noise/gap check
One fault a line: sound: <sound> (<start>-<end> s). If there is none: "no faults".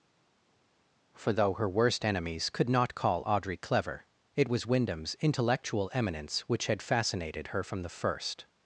no faults